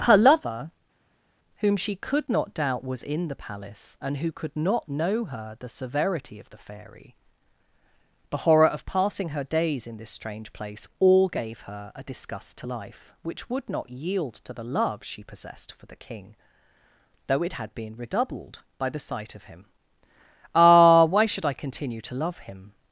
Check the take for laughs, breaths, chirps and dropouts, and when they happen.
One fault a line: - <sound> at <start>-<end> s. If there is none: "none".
none